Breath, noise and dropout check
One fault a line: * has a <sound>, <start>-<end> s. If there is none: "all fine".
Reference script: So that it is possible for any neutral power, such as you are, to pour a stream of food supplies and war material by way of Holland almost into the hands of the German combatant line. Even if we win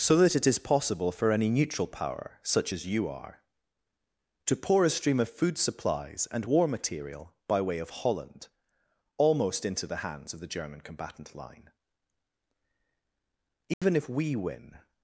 * has a dropout, 13.7-13.8 s